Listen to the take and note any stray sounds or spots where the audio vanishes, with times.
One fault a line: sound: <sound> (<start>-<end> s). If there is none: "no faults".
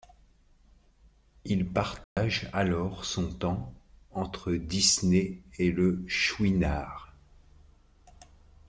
sound: dropout (2.0-2.2 s)